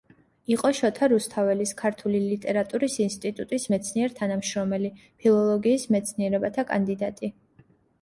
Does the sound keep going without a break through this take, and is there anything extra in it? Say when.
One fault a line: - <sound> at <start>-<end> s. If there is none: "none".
none